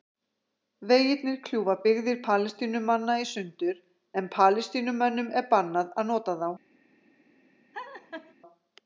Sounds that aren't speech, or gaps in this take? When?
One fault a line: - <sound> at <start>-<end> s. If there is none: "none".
- laugh at 7.7-8.3 s